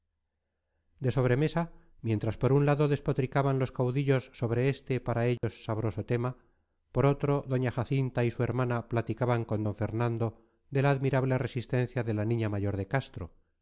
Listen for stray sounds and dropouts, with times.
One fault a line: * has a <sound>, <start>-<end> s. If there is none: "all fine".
* has a dropout, 5.4-5.4 s